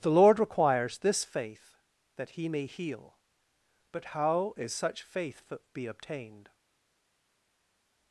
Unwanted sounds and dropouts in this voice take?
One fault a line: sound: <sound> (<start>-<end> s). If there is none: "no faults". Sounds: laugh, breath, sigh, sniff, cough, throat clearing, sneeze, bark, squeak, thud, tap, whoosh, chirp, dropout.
no faults